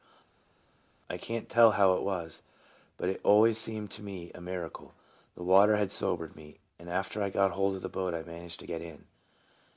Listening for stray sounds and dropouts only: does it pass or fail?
pass